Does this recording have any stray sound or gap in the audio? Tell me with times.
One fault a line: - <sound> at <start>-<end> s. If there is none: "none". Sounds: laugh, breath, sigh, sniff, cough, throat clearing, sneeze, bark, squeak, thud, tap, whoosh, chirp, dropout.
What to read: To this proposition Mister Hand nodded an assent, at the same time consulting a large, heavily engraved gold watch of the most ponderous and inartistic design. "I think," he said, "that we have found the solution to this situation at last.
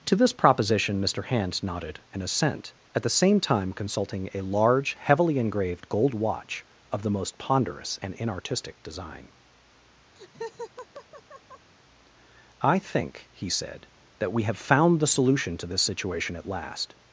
- laugh at 10.2-11.7 s